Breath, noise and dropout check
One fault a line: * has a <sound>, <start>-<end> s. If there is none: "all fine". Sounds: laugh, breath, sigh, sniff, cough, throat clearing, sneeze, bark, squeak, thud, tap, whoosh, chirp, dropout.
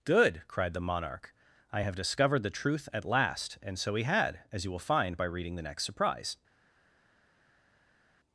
all fine